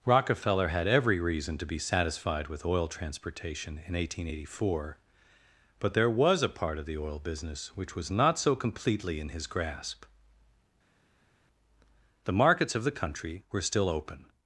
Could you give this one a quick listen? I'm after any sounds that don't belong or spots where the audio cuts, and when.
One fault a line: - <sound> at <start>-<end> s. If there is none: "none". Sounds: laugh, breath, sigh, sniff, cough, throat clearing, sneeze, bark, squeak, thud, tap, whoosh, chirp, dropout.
none